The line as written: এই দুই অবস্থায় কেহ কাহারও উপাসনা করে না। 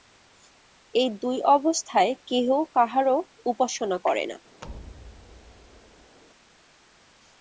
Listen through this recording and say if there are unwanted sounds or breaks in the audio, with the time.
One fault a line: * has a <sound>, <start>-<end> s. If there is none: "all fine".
* has a thud, 4.6-6.2 s